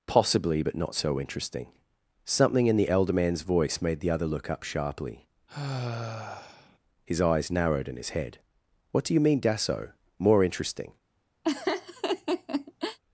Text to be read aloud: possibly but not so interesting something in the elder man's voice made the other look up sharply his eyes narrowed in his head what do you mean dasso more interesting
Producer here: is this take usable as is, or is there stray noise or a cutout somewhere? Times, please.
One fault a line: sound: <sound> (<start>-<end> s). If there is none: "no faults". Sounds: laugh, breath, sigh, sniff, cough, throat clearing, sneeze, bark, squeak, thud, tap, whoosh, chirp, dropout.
sound: sigh (5.5-6.8 s)
sound: laugh (11.4-13.0 s)